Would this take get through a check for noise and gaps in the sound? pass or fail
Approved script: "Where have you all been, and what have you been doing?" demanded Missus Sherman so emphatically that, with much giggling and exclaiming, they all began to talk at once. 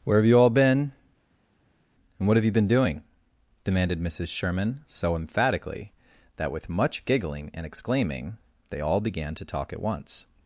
pass